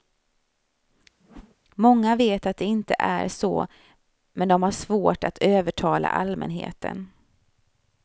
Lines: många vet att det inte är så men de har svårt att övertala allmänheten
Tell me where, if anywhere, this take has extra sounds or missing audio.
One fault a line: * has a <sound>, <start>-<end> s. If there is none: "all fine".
* has a whoosh, 1.2-1.6 s